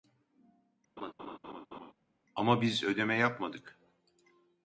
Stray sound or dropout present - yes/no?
yes